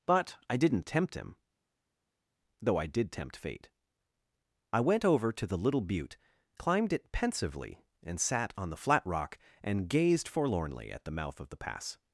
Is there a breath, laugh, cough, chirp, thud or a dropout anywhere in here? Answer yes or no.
no